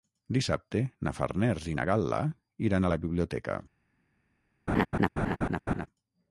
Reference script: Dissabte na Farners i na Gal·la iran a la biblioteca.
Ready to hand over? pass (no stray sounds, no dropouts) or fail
fail